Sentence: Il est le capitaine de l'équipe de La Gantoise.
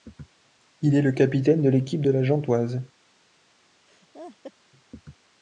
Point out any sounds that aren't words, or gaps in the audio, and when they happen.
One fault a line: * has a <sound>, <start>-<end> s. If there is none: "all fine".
* has a laugh, 3.9-4.5 s